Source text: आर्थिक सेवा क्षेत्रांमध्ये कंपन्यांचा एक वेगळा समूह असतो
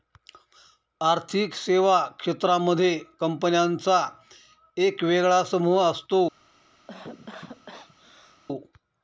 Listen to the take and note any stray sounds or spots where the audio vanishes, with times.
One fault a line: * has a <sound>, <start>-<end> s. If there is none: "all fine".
* has a cough, 6.9-8.4 s